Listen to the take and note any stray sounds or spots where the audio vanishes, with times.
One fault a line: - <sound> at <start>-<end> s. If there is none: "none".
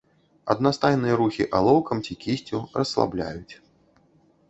none